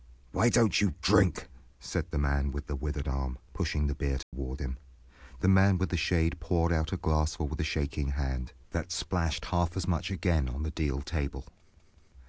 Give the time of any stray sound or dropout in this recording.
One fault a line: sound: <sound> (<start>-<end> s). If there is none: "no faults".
sound: dropout (4.2-4.3 s)